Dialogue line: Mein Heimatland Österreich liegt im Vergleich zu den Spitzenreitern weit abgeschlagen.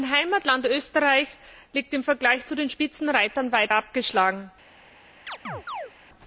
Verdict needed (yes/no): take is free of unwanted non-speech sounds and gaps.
no